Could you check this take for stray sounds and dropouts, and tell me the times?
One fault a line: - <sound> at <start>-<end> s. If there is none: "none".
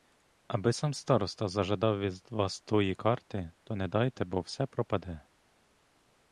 none